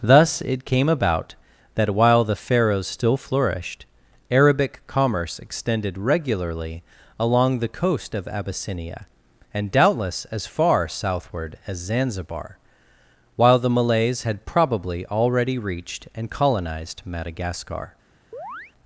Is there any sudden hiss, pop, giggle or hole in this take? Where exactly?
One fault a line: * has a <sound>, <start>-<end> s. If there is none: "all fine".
* has a chirp, 18.3-18.7 s